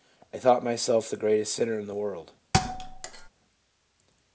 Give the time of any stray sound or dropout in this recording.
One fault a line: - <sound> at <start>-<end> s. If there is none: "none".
- thud at 2.5-3.3 s